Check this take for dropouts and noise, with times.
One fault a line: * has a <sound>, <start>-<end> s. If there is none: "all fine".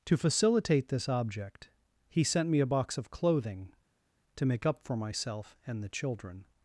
all fine